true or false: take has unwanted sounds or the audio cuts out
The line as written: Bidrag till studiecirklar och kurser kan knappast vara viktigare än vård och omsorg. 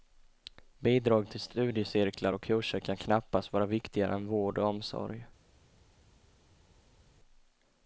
false